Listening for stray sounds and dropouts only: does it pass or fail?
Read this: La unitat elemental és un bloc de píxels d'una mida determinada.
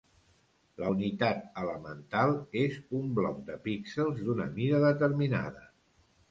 pass